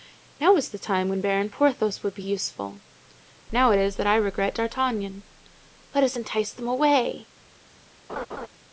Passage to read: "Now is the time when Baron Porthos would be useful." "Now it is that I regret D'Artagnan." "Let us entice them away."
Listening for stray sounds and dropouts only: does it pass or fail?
fail